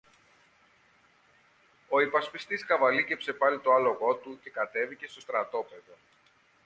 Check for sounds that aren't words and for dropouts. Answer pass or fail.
pass